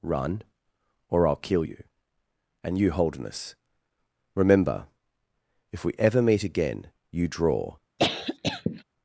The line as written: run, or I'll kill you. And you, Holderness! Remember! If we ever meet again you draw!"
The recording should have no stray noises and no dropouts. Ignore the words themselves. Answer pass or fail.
fail